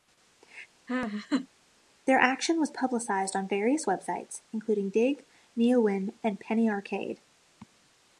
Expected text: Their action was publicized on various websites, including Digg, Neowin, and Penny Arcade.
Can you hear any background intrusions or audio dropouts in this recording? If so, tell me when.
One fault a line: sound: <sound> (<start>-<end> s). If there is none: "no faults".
sound: laugh (0.9-1.5 s)